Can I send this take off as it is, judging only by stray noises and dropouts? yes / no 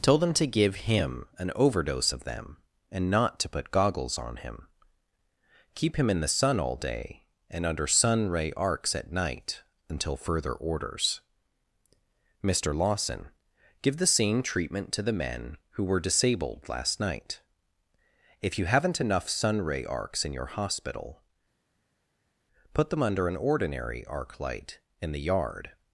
yes